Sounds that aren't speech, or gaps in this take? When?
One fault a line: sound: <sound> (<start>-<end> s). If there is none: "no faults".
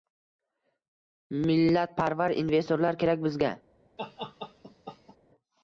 sound: laugh (4.0-5.2 s)